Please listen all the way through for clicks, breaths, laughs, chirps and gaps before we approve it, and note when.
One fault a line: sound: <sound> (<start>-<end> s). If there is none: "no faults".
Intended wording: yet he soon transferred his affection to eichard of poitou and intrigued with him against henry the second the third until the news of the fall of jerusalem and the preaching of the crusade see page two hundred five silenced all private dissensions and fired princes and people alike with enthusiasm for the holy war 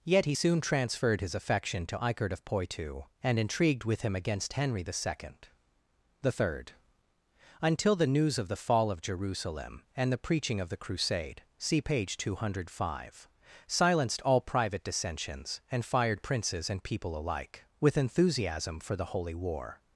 no faults